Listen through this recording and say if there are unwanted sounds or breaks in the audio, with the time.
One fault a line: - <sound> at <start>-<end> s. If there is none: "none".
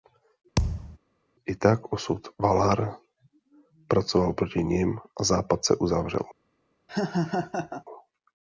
- thud at 0.6-1.0 s
- laugh at 6.9-7.8 s